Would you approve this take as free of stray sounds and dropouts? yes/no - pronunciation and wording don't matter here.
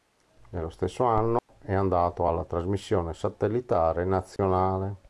no